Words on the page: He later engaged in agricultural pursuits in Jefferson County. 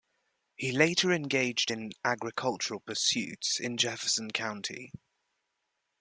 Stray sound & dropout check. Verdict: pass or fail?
pass